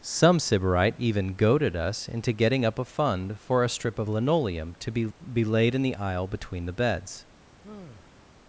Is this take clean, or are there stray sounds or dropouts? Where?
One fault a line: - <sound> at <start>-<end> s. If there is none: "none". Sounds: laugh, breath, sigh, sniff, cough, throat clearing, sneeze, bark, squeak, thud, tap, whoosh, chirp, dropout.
- sigh at 7.6-8.3 s